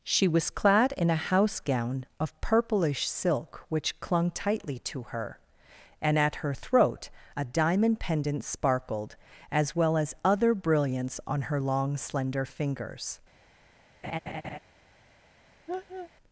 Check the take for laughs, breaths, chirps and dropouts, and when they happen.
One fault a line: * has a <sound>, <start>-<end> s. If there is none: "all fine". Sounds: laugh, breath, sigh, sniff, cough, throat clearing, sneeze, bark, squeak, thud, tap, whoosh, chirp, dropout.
* has a laugh, 14.0-14.6 s
* has a laugh, 15.7-16.1 s